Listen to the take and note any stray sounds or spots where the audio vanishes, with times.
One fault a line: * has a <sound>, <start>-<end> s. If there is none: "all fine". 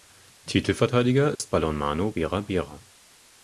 * has a dropout, 1.4-1.4 s